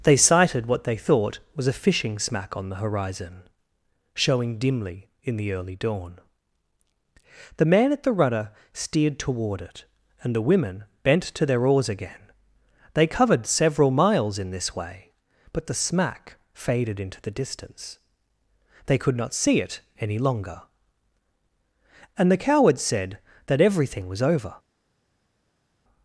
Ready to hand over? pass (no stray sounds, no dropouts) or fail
pass